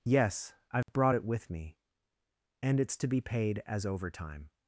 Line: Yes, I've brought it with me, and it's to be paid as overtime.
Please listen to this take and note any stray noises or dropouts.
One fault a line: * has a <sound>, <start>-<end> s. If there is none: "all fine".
* has a dropout, 0.8-0.9 s